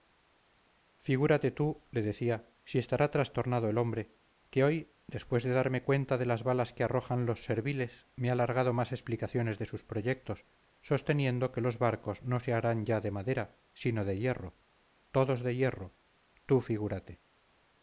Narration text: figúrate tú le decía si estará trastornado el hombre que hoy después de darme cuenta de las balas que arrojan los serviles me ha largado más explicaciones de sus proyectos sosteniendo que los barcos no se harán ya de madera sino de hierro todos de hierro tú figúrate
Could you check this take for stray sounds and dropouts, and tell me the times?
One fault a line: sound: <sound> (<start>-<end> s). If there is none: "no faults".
no faults